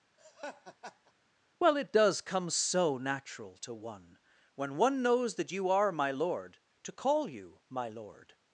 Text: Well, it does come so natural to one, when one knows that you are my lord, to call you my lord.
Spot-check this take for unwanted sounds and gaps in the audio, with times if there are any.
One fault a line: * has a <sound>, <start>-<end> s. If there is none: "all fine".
* has a laugh, 0.2-1.1 s